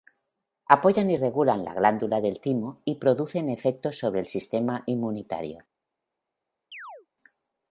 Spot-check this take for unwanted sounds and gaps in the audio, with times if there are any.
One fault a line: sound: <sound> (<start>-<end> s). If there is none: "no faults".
sound: chirp (6.7-7.1 s)